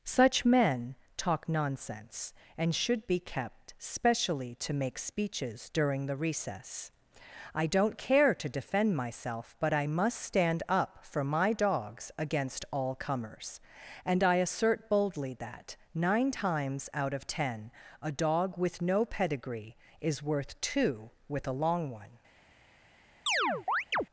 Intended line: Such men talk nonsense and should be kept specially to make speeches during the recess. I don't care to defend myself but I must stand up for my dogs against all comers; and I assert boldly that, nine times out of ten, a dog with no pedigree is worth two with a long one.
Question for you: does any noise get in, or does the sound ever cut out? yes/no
yes